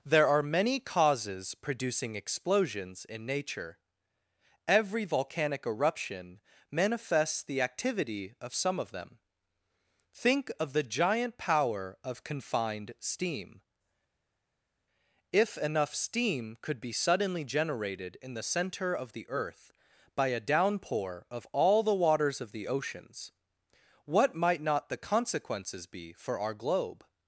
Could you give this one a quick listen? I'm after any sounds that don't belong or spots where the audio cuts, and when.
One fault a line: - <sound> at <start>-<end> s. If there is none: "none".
none